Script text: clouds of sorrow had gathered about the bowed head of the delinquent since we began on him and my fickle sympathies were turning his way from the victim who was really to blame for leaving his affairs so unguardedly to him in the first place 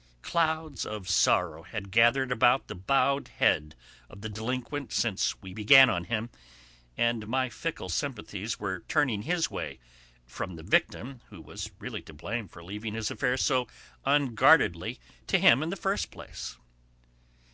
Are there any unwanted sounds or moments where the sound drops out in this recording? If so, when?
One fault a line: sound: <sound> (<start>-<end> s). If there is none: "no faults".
no faults